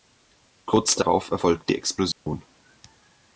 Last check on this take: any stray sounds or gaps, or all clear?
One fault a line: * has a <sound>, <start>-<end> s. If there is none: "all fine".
* has a dropout, 2.1-2.3 s